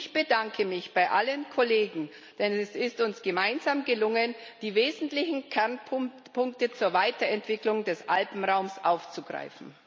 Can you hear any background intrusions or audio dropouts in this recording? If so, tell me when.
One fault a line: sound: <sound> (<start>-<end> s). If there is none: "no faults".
no faults